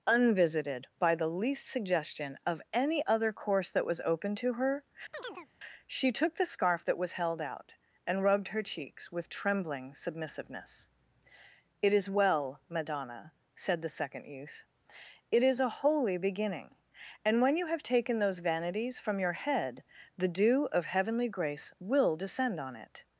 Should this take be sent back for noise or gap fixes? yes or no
yes